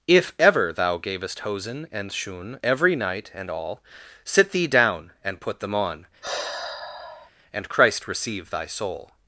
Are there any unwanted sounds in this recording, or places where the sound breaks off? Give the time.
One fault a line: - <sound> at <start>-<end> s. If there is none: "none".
- sigh at 6.2-7.3 s